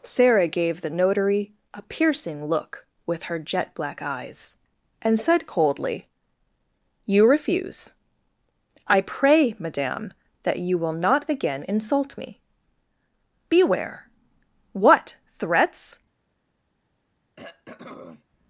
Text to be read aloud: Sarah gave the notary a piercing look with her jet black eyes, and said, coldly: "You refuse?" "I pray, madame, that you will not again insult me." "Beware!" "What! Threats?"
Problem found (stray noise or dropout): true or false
true